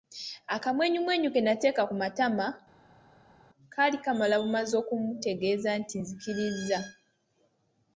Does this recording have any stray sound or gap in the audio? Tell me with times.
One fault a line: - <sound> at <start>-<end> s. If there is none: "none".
none